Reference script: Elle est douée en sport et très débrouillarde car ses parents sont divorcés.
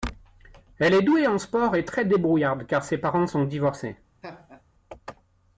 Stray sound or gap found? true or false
true